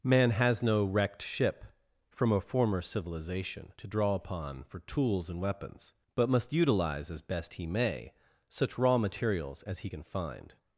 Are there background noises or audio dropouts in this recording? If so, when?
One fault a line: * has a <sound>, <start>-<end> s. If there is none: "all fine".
all fine